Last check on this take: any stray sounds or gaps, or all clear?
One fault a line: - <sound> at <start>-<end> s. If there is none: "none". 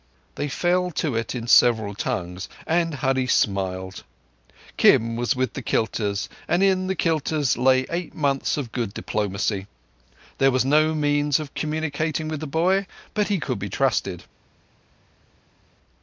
none